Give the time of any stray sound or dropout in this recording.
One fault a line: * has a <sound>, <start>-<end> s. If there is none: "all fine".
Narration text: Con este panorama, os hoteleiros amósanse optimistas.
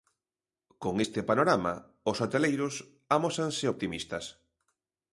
all fine